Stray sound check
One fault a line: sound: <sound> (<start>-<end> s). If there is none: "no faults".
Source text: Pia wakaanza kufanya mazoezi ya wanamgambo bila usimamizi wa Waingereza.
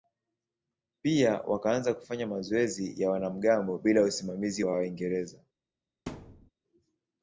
sound: thud (6.1-6.5 s)